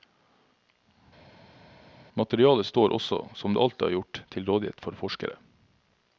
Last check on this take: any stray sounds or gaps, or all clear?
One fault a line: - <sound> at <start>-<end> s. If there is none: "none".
none